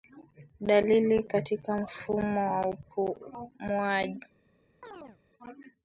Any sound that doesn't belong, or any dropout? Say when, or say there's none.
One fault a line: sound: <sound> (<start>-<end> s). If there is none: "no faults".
sound: chirp (4.8-5.2 s)